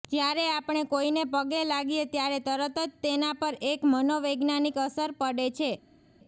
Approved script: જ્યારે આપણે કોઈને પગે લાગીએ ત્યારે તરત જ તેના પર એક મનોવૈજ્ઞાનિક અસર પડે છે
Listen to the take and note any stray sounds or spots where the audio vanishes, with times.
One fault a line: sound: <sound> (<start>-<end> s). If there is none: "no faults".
no faults